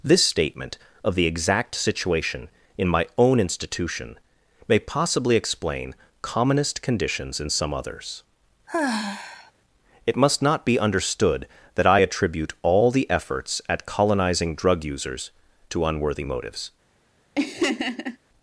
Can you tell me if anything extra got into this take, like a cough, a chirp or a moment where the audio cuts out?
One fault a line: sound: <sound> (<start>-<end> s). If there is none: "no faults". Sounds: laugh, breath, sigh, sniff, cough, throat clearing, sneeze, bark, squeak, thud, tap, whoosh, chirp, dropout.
sound: sigh (8.7-9.5 s)
sound: laugh (17.3-18.2 s)